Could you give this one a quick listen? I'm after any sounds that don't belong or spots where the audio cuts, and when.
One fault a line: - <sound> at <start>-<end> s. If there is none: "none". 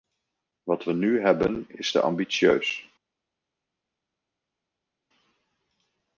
none